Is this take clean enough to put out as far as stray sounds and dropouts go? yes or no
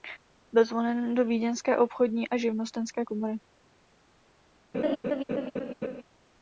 no